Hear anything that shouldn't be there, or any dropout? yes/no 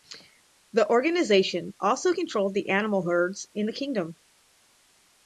no